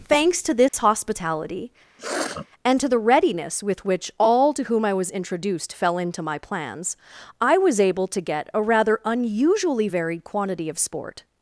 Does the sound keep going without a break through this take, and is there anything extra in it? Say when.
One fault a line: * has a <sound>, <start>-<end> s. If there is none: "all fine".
* has a dropout, 0.7-0.7 s
* has a sniff, 2.0-2.5 s